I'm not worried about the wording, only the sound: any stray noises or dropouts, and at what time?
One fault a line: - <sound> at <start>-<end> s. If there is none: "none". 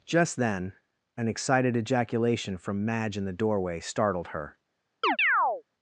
- chirp at 5.0-5.6 s